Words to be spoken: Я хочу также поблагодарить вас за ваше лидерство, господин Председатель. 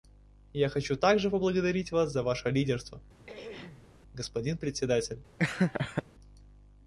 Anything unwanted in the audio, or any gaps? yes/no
yes